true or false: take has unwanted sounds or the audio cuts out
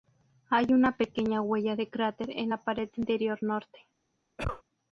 true